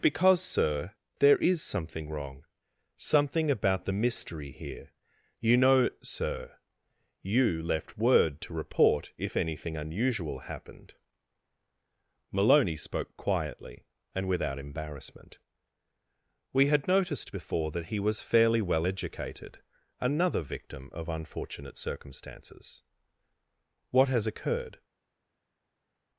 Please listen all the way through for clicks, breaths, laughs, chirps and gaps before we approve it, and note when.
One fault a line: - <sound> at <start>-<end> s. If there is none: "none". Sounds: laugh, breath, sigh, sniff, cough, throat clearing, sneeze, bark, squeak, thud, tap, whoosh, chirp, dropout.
none